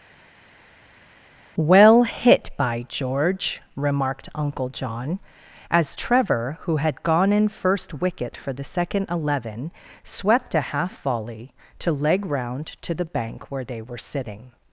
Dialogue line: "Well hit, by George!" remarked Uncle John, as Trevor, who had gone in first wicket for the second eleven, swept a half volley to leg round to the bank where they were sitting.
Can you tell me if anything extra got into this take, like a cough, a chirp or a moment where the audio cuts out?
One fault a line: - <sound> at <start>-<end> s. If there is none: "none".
none